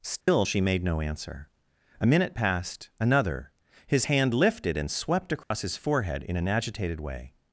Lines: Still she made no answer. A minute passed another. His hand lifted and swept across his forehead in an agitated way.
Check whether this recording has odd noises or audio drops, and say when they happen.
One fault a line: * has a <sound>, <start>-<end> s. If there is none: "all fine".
* has a dropout, 0.2-0.3 s
* has a dropout, 5.4-5.5 s